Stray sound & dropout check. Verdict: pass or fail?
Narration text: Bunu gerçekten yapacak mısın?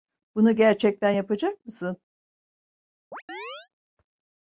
fail